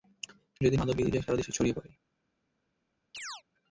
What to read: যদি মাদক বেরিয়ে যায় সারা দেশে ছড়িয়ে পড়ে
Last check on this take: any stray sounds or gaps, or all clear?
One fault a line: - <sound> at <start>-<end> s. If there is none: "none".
- chirp at 3.1-3.4 s